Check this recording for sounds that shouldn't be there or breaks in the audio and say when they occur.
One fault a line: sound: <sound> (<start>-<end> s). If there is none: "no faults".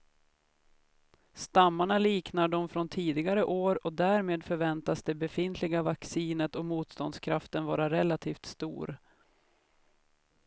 no faults